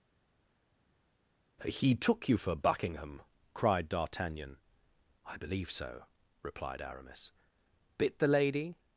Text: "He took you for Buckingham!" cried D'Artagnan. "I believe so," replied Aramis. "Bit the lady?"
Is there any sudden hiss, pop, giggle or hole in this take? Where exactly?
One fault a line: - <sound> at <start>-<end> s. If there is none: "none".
none